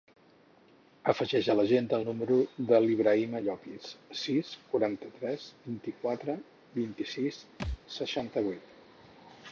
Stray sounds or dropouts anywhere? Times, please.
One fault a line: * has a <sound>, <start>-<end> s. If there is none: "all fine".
* has a thud, 7.6-7.8 s